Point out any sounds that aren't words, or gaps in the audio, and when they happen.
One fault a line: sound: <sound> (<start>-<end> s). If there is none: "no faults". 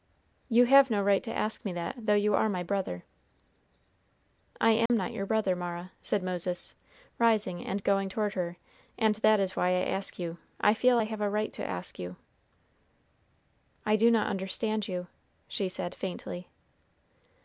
sound: dropout (4.9-4.9 s)